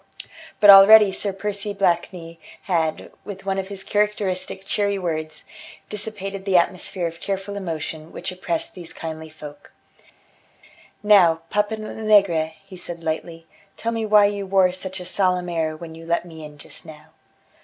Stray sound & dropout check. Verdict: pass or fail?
pass